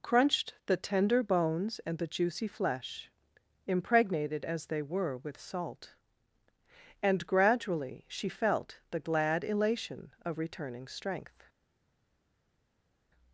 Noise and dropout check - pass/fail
pass